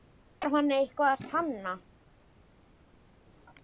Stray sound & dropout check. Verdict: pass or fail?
pass